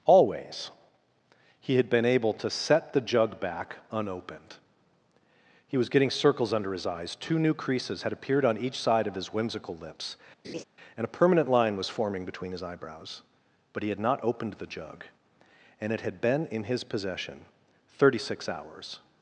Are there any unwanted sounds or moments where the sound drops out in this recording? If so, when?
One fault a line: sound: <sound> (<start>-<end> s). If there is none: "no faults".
sound: laugh (10.4-10.6 s)